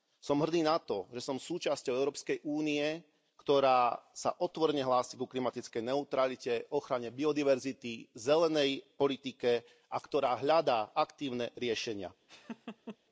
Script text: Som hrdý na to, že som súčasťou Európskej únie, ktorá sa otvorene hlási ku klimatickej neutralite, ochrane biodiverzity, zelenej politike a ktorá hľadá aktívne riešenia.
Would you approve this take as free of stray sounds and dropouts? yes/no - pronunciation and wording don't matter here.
no